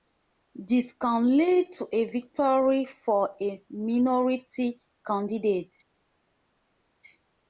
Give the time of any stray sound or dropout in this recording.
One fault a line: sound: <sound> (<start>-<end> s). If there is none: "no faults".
no faults